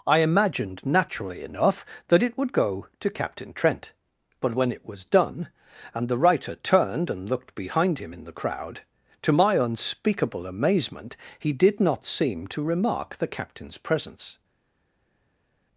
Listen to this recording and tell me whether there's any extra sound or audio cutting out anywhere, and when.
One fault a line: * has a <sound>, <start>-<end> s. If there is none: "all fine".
all fine